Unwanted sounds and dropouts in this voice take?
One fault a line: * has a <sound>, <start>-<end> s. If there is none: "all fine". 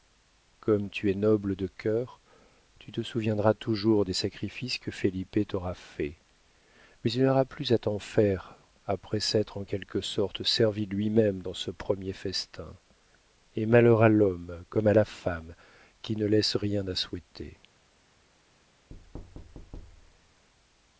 * has a thud, 18.9-20.5 s